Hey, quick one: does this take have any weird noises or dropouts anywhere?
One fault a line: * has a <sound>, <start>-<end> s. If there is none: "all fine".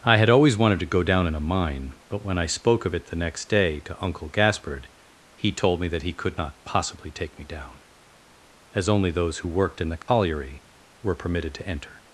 * has a dropout, 10.0-10.1 s